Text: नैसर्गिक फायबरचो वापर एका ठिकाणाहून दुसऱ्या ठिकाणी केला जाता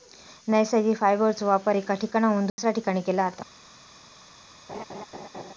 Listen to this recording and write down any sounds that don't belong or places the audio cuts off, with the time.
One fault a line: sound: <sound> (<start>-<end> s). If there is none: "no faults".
sound: dropout (2.5-2.6 s)
sound: laugh (4.7-5.5 s)